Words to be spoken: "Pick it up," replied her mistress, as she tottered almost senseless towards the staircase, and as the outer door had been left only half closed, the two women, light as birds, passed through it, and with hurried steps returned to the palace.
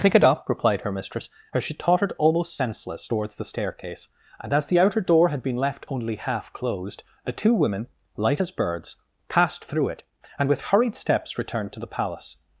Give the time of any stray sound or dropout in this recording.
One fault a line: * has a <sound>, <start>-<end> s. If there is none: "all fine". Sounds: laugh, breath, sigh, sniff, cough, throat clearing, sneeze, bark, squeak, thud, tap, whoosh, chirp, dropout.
all fine